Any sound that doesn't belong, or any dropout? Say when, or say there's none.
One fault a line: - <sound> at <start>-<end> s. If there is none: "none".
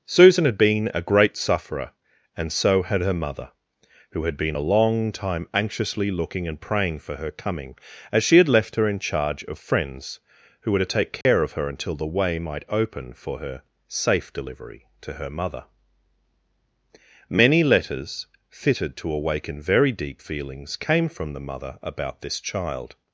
- dropout at 11.2-11.3 s